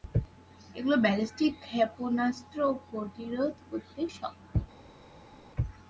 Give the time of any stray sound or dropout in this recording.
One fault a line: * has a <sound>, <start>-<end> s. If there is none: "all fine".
all fine